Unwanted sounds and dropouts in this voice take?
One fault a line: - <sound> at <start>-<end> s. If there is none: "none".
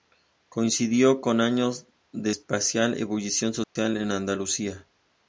- dropout at 3.6-3.8 s